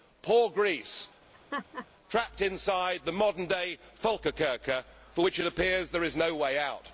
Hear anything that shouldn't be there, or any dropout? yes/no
yes